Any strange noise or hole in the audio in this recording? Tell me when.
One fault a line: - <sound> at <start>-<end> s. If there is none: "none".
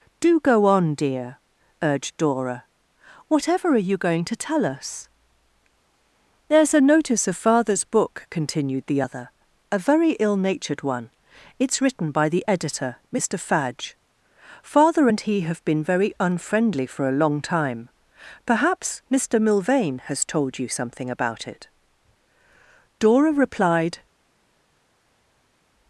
none